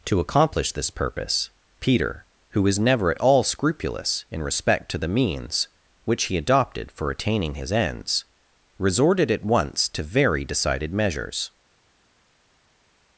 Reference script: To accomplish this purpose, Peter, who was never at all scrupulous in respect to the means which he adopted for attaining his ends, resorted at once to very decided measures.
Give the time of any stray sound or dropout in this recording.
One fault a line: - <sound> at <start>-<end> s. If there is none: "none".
none